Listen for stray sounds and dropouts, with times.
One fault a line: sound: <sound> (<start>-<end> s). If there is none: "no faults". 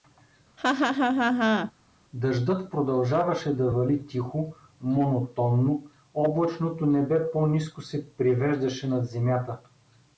sound: laugh (0.6-1.7 s)